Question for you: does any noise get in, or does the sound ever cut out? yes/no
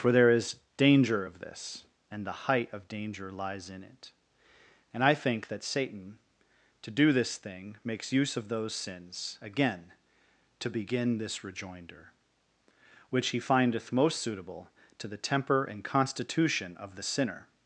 no